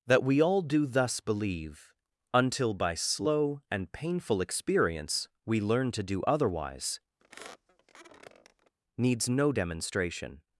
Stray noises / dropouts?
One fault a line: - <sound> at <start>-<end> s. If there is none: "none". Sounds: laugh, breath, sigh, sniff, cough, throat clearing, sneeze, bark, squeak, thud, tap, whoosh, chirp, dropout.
- squeak at 7.2-8.7 s